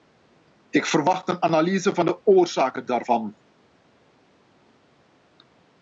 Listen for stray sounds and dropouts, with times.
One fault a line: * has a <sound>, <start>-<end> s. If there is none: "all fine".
all fine